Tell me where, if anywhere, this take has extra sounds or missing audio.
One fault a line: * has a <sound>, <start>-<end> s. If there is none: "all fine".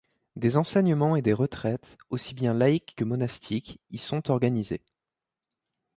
all fine